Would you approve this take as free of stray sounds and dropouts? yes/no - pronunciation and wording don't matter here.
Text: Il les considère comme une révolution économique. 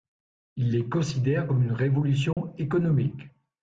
no